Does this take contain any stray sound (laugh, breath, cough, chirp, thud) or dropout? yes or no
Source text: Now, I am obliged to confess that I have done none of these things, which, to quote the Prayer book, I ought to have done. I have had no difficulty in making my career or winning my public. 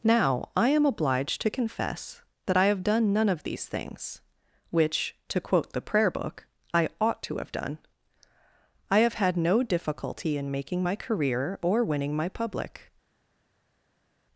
no